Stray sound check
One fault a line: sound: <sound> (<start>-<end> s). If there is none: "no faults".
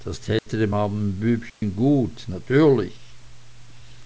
sound: dropout (0.4-0.5 s)
sound: dropout (1.5-1.6 s)